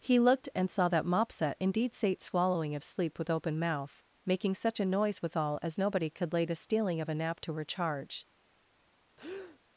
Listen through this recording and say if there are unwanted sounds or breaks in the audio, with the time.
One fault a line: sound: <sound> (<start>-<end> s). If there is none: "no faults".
sound: breath (9.2-9.6 s)